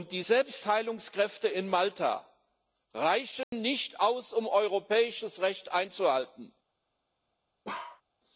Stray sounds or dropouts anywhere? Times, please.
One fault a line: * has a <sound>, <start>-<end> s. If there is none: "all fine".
* has a dropout, 3.4-3.5 s
* has a bark, 7.6-8.0 s